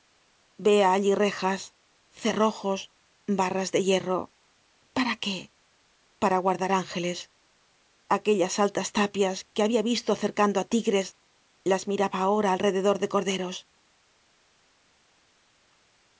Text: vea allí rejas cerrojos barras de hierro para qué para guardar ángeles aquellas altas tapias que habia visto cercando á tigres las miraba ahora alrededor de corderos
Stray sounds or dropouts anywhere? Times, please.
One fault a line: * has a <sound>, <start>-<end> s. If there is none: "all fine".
all fine